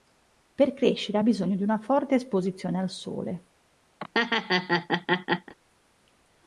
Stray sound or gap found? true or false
true